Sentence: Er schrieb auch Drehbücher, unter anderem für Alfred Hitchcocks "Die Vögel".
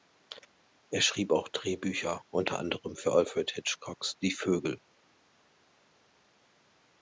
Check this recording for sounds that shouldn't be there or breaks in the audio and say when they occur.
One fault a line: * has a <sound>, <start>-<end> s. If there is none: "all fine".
all fine